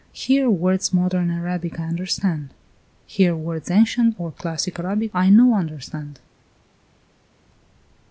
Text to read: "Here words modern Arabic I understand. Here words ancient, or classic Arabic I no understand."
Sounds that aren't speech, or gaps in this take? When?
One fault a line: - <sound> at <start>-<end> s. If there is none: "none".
none